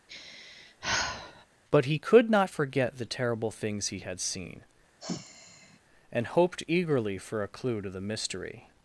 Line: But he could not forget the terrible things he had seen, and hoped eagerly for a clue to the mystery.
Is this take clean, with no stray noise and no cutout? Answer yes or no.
no